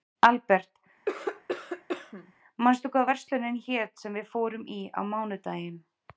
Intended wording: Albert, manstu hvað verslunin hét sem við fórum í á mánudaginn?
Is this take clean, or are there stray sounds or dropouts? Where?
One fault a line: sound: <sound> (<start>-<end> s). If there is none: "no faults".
sound: cough (1.1-2.3 s)